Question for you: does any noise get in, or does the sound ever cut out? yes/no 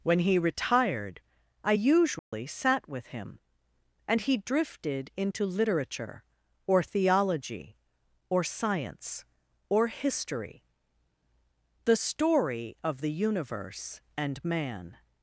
yes